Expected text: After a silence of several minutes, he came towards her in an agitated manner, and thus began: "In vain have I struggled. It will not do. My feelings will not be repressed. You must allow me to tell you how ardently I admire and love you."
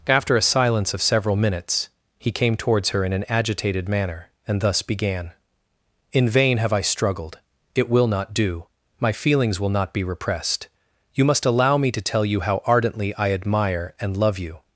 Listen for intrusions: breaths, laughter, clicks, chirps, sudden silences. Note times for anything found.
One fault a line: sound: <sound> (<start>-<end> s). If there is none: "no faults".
no faults